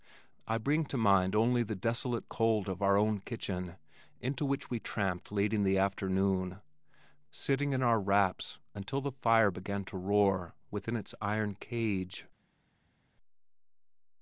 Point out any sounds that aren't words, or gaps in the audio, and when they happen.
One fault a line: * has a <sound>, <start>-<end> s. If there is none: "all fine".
all fine